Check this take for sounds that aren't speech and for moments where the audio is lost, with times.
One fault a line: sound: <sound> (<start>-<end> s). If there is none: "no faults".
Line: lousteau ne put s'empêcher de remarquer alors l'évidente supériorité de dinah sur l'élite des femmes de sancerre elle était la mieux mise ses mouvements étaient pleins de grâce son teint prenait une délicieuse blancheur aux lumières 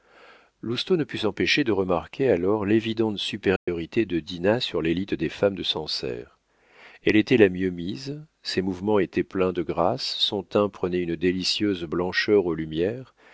sound: dropout (3.6-3.7 s)